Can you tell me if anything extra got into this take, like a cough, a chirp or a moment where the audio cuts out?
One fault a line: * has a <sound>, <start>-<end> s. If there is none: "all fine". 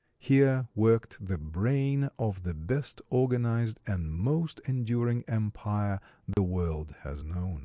* has a dropout, 6.3-6.4 s